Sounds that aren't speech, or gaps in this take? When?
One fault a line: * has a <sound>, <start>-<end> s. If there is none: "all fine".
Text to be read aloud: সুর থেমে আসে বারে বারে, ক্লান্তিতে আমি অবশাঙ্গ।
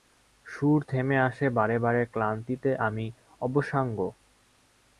all fine